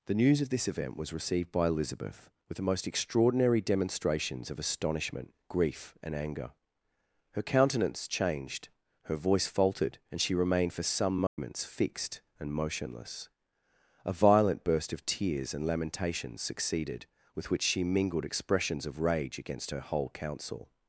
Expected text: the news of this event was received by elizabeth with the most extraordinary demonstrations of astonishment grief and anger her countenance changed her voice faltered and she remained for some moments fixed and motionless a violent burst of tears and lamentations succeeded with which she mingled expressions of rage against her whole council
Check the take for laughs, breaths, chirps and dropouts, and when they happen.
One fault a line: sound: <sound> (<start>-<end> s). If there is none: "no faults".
sound: dropout (11.3-11.4 s)